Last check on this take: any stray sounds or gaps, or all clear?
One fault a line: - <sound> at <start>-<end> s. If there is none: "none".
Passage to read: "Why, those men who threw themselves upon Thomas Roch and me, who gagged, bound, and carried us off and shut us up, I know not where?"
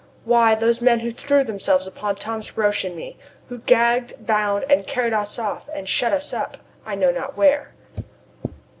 none